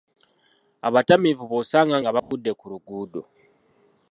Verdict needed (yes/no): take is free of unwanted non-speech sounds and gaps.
no